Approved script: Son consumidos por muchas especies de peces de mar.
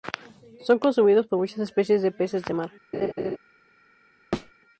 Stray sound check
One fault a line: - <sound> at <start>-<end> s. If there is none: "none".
- laugh at 2.9-3.4 s
- thud at 4.3-4.5 s